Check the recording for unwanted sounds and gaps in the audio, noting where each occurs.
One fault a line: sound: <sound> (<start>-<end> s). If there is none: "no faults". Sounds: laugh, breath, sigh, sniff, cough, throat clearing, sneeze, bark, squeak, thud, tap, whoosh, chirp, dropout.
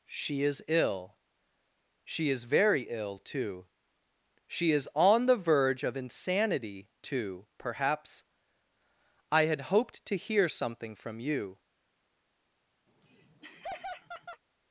sound: laugh (12.9-14.4 s)